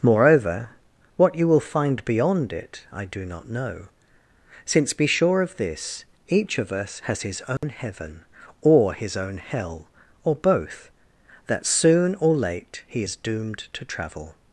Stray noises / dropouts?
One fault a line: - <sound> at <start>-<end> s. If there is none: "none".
- dropout at 7.6-7.6 s